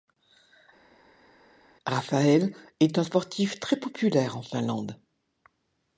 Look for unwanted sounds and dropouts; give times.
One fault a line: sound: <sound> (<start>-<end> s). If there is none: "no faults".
no faults